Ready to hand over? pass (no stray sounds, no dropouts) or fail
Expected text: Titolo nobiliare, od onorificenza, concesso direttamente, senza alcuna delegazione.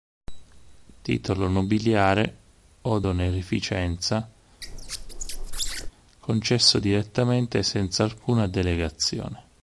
fail